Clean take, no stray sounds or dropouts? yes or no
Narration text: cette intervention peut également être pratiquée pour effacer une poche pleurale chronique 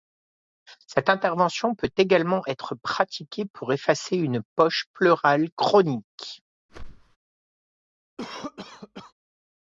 no